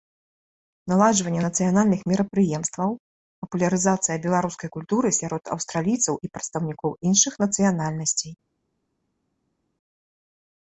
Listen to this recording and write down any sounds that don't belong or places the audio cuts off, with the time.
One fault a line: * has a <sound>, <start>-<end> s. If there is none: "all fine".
all fine